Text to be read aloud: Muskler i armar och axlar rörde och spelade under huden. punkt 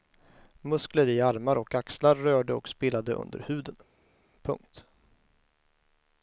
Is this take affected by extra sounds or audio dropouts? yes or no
no